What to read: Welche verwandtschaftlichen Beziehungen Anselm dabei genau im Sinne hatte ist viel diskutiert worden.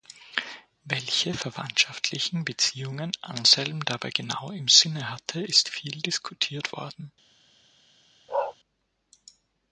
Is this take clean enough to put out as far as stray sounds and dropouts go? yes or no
no